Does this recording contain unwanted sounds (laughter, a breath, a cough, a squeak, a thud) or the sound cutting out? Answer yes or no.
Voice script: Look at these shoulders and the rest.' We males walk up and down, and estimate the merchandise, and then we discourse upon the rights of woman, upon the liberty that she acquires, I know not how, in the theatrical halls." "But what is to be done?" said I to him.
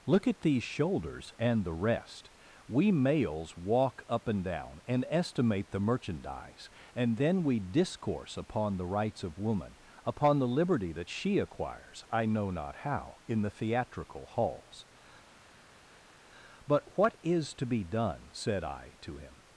no